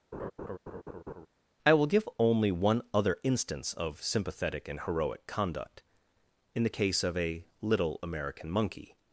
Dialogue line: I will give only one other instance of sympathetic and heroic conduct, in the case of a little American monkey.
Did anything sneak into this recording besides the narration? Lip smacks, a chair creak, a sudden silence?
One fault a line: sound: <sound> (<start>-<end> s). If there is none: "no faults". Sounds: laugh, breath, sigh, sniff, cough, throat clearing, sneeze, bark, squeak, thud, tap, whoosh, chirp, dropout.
sound: laugh (0.1-1.3 s)